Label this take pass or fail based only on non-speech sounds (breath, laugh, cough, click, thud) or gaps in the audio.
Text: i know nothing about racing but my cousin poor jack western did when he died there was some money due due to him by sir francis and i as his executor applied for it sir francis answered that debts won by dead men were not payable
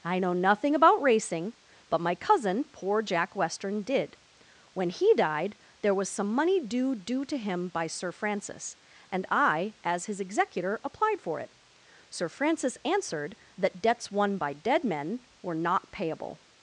pass